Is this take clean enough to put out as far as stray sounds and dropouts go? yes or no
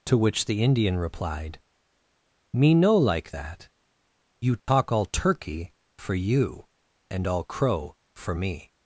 no